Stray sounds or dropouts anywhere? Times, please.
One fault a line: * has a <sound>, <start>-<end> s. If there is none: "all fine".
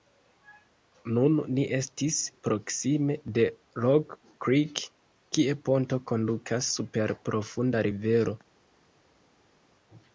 all fine